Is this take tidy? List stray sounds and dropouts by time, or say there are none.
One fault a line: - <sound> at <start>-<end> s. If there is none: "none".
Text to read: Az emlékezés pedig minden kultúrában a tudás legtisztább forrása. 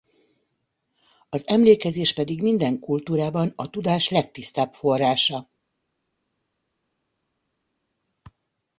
none